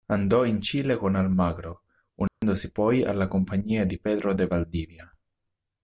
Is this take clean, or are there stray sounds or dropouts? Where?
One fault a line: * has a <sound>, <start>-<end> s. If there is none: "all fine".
* has a dropout, 2.3-2.4 s